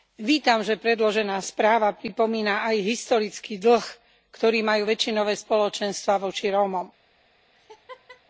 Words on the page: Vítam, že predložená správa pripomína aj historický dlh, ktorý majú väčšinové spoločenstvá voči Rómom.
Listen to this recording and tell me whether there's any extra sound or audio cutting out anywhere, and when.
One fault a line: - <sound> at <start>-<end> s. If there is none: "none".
- laugh at 7.5-8.2 s